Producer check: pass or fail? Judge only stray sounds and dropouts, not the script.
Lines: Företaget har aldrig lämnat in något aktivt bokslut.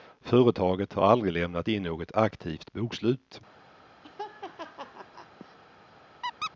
fail